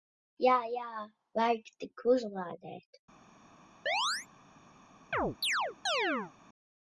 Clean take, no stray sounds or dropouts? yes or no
no